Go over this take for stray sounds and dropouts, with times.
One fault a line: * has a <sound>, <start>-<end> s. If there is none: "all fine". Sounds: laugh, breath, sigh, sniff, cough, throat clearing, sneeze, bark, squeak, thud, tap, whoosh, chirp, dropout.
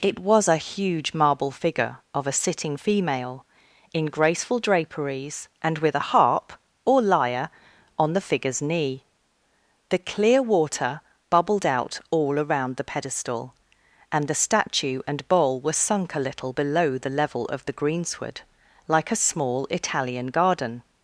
all fine